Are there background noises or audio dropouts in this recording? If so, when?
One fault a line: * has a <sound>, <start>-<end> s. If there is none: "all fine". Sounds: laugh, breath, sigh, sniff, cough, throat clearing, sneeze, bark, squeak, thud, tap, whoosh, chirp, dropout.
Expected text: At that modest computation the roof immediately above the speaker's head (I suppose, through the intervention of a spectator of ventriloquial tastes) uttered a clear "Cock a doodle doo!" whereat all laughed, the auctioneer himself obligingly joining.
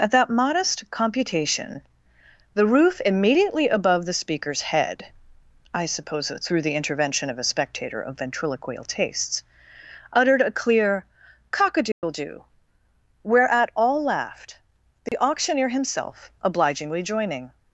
* has a dropout, 11.9-12.0 s
* has a dropout, 15.1-15.1 s